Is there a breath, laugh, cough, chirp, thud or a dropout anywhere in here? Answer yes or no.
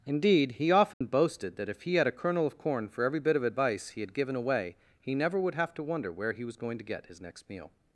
yes